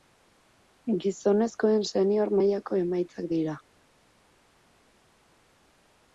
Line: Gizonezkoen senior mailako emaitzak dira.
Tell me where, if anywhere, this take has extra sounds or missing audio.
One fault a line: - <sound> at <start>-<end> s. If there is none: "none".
none